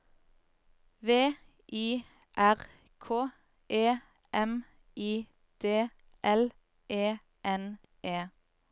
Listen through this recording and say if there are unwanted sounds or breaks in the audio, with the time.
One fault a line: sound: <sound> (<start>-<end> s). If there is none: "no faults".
no faults